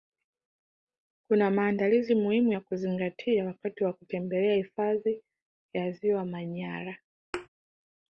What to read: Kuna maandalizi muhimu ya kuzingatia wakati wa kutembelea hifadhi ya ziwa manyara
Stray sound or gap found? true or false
true